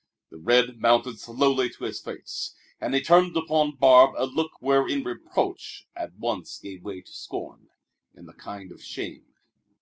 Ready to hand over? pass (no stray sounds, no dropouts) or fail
pass